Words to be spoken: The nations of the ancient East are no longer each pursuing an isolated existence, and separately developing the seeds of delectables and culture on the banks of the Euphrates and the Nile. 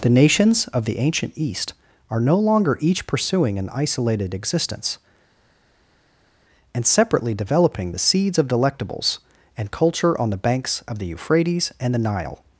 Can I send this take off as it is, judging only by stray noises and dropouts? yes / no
yes